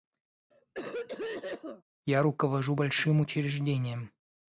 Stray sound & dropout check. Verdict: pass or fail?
fail